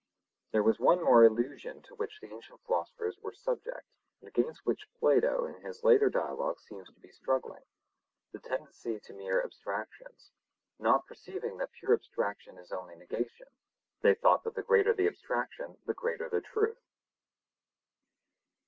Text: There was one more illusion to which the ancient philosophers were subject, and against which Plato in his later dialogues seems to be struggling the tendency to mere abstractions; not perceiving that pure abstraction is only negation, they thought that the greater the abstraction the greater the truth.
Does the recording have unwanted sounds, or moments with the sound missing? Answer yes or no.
no